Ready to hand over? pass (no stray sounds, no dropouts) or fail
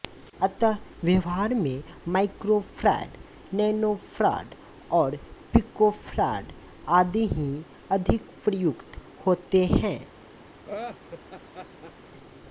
fail